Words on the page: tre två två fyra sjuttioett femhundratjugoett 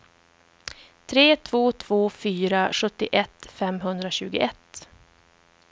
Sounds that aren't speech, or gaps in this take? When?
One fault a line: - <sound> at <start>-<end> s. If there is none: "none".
none